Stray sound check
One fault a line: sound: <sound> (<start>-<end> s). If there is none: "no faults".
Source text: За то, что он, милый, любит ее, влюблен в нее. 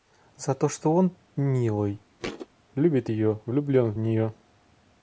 sound: thud (2.2-2.5 s)